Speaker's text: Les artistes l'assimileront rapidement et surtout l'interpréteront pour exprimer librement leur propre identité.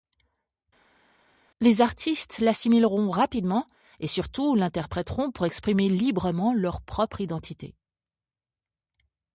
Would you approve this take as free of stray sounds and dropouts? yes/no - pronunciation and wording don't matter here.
yes